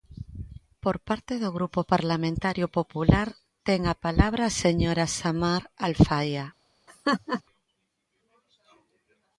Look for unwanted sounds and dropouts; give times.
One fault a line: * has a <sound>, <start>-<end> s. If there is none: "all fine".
* has a laugh, 6.9-7.4 s